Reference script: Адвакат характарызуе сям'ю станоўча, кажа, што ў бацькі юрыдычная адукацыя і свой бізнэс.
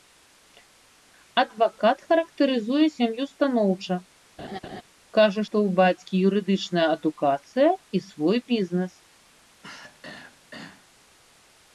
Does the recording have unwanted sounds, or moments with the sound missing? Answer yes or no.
yes